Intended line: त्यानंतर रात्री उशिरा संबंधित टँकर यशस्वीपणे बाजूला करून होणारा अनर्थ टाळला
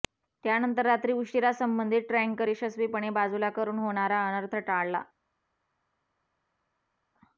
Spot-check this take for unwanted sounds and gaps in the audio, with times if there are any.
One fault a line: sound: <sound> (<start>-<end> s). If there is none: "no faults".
no faults